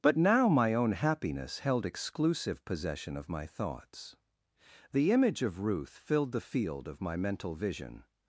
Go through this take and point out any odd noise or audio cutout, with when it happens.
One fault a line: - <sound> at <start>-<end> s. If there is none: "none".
none